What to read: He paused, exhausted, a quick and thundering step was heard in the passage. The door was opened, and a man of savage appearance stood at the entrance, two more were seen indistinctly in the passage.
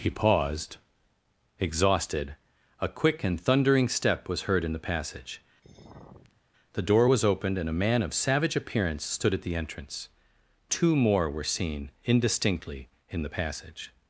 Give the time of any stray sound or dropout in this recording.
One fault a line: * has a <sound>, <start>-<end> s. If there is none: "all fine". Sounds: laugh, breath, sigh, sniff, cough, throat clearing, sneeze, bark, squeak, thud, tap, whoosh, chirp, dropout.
* has a sigh, 5.6-6.4 s